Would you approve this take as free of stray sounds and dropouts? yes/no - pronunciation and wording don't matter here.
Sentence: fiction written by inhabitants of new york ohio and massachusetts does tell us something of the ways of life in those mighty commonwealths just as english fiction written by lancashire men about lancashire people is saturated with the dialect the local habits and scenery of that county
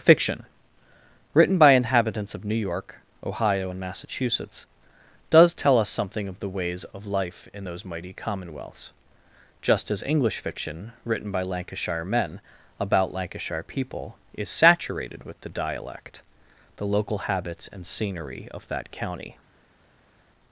yes